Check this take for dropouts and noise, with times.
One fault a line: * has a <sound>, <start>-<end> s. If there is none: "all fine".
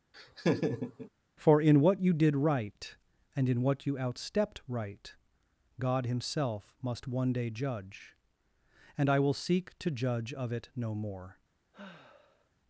* has a laugh, 0.1-1.1 s
* has a sigh, 11.7-12.5 s